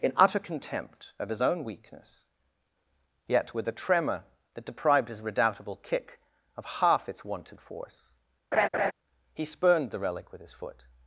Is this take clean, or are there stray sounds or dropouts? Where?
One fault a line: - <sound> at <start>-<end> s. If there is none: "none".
- laugh at 8.5-8.9 s